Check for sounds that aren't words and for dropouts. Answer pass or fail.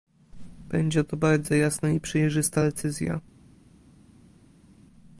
pass